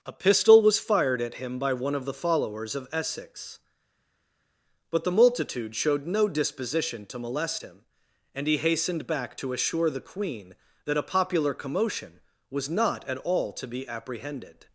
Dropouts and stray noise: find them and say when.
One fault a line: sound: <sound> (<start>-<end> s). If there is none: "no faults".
no faults